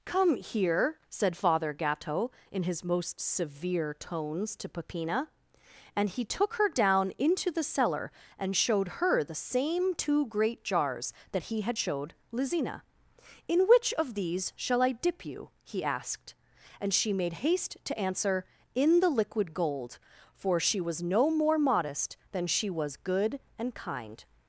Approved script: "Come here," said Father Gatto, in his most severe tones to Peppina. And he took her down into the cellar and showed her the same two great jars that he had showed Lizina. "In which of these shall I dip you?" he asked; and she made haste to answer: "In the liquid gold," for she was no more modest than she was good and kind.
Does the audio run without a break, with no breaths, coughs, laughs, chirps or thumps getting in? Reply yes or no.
yes